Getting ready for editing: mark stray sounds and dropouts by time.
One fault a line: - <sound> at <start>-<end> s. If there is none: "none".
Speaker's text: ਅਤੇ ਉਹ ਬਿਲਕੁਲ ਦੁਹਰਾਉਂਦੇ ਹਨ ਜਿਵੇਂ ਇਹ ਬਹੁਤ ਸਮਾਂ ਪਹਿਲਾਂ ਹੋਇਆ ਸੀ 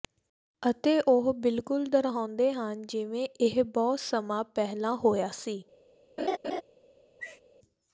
- laugh at 6.2-6.6 s
- sneeze at 7.2-7.4 s